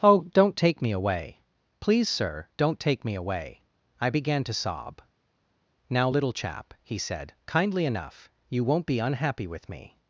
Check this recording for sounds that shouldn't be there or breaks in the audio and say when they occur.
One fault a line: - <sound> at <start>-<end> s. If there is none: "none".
none